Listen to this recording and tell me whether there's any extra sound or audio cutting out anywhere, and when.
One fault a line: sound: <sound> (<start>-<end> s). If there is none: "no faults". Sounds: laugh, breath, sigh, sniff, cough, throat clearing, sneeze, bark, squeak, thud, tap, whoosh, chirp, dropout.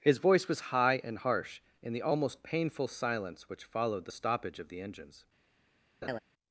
sound: laugh (6.0-6.2 s)